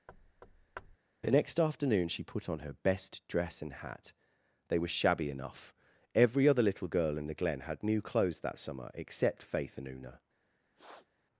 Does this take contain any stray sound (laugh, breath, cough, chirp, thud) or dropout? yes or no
yes